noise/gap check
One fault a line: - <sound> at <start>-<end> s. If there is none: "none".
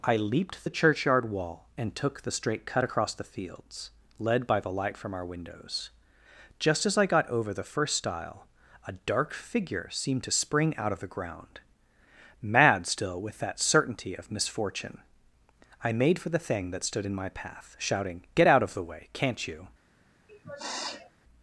- sniff at 20.3-21.1 s